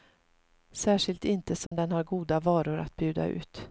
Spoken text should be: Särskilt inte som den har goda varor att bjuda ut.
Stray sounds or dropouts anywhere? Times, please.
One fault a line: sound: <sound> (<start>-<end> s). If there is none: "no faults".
sound: dropout (1.7-1.7 s)